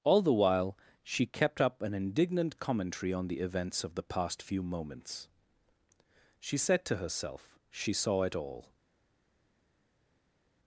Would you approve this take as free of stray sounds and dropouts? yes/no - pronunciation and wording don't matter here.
yes